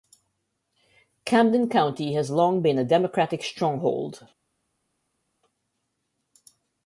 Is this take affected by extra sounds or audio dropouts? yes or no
no